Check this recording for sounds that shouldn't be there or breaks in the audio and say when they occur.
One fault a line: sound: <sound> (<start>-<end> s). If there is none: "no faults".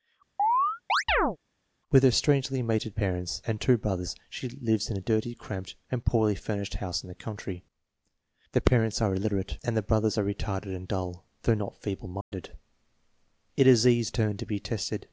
sound: chirp (0.4-1.4 s)
sound: dropout (12.2-12.3 s)